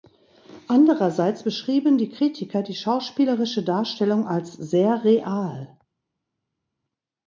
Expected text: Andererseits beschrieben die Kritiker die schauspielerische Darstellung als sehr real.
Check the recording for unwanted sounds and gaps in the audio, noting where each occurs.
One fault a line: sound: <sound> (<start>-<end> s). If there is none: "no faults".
no faults